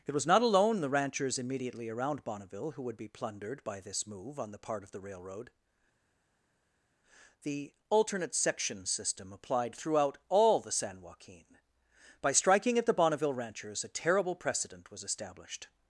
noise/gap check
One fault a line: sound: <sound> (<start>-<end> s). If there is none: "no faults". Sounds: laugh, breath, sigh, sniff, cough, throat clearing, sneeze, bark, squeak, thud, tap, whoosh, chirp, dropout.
no faults